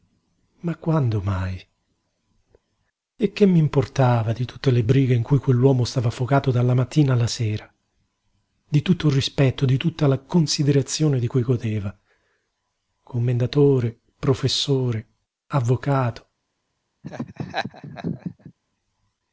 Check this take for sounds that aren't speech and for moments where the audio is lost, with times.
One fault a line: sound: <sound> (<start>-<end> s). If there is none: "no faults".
sound: laugh (17.0-18.5 s)